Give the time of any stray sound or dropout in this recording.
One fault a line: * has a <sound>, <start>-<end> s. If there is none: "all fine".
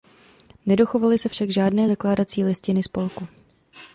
all fine